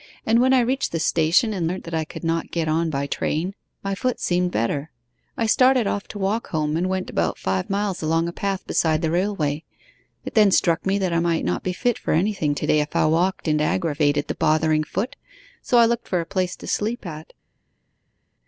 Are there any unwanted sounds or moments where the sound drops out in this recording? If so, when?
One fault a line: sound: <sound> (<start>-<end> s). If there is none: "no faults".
no faults